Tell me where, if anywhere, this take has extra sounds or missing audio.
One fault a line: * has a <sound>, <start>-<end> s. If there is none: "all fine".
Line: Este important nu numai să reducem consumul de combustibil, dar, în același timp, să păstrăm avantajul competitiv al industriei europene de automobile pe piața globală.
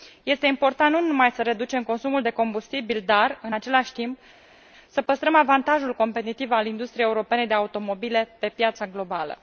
all fine